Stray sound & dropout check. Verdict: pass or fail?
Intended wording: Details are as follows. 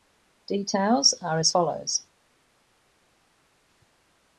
pass